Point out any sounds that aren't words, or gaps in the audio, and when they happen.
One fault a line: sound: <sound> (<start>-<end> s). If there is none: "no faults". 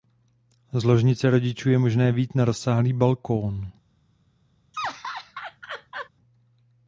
sound: laugh (4.7-6.1 s)